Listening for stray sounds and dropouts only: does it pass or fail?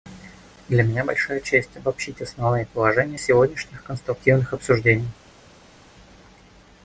pass